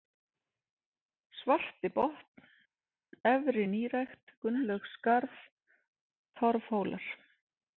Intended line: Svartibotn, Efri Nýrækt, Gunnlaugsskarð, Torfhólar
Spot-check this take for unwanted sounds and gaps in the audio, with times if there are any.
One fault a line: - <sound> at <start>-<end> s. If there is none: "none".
none